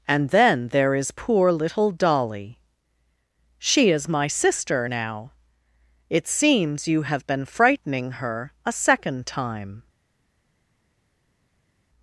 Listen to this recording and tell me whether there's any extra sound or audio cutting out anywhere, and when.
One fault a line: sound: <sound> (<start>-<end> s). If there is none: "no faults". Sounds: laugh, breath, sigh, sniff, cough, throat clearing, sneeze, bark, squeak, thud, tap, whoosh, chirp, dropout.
no faults